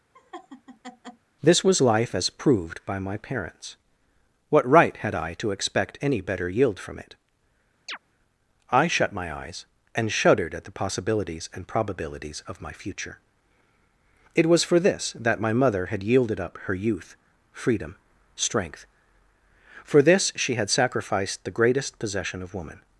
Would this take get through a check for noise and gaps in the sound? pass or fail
fail